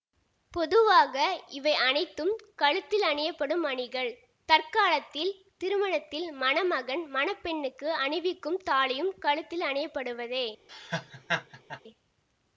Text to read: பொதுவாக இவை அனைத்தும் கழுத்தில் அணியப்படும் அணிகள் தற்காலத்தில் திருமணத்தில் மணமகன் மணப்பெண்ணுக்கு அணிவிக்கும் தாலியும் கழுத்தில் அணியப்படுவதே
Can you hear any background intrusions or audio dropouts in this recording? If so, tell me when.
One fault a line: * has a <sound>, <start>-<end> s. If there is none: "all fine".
* has a laugh, 10.7-11.8 s